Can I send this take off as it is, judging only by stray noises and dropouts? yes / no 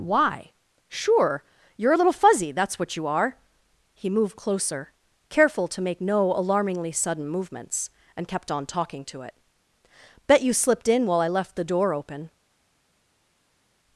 yes